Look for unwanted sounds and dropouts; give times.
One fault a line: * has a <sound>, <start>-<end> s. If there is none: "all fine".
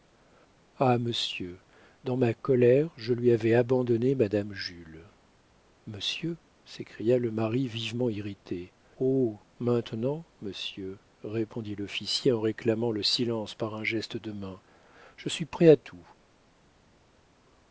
all fine